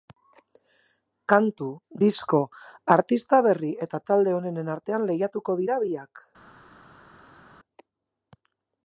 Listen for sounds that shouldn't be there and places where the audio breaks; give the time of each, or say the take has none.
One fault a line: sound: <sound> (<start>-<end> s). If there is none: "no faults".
no faults